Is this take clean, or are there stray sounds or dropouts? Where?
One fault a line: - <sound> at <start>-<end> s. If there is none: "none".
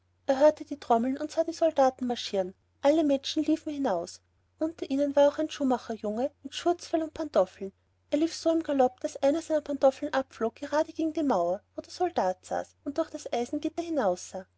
none